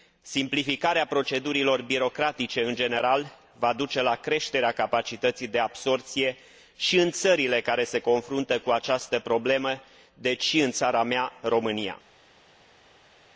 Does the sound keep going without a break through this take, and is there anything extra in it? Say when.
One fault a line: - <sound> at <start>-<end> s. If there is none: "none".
none